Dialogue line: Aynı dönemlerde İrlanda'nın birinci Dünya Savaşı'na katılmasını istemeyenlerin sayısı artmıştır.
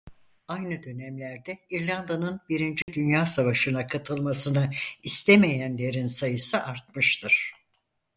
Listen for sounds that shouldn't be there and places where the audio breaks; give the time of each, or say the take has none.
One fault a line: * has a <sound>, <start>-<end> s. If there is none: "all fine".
* has a dropout, 2.8-2.9 s